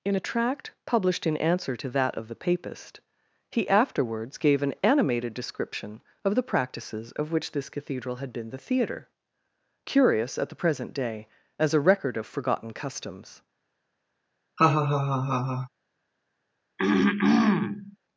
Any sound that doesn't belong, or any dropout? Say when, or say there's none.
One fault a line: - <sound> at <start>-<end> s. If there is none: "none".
- laugh at 14.6-15.7 s
- throat clearing at 16.8-18.0 s